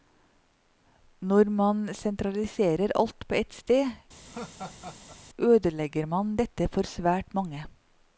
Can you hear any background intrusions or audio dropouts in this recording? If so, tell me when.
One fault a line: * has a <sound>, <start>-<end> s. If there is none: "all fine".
* has a laugh, 4.3-5.2 s